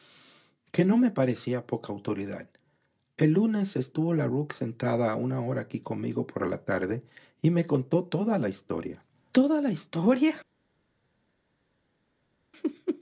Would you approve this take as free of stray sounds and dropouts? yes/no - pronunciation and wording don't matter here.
yes